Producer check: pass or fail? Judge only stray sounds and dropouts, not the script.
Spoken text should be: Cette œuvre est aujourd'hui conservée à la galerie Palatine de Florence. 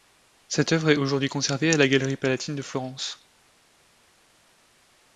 pass